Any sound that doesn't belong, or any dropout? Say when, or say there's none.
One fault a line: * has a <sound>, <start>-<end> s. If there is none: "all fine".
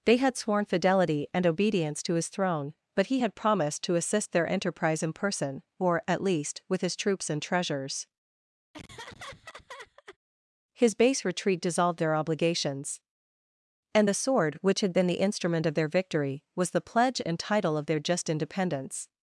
* has a laugh, 8.7-10.2 s